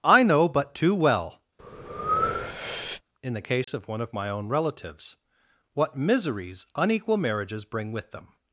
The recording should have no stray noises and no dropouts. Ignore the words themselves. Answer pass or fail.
fail